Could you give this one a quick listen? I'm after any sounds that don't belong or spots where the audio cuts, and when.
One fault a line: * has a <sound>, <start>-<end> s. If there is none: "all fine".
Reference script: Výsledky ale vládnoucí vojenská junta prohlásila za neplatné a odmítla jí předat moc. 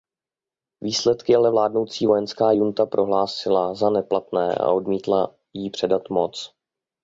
all fine